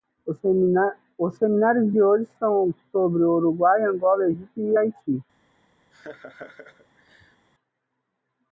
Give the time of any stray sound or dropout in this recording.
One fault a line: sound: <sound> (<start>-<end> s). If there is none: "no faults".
sound: laugh (5.9-7.5 s)